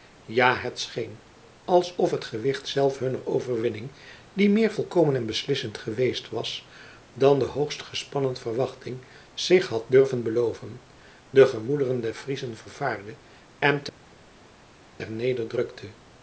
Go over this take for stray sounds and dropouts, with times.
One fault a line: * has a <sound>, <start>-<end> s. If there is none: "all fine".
all fine